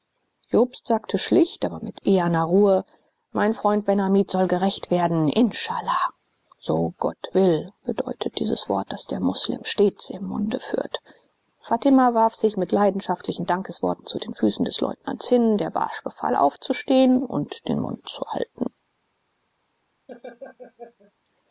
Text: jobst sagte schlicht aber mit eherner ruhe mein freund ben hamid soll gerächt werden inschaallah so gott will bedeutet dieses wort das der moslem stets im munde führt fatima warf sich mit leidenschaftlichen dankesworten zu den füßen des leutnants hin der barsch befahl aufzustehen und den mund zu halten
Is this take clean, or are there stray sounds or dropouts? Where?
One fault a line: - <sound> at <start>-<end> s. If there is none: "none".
- laugh at 20.1-21.1 s